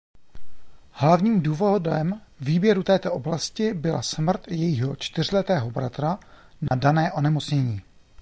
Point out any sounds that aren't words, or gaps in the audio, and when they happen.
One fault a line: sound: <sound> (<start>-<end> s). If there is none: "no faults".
sound: dropout (6.7-6.7 s)